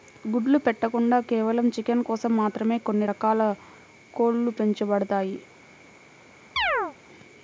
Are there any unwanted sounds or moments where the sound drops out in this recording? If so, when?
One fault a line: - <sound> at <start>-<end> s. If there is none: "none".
- chirp at 6.6-6.9 s